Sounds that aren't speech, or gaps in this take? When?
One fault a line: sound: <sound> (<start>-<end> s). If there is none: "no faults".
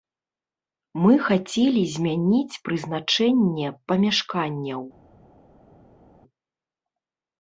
no faults